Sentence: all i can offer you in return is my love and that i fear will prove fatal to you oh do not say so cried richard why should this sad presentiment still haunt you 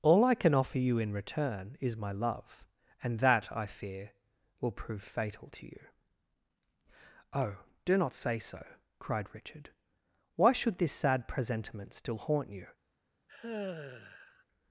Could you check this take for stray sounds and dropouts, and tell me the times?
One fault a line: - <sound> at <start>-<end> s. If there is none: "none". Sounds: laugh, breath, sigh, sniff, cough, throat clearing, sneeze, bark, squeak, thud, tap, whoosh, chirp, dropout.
- sigh at 13.3-14.4 s